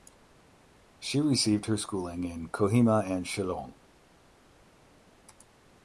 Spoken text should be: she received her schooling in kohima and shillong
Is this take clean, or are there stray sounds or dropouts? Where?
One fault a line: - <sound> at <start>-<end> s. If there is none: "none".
none